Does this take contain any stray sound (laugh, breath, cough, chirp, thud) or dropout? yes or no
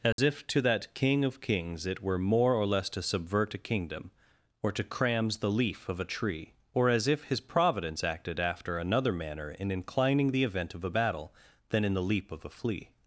yes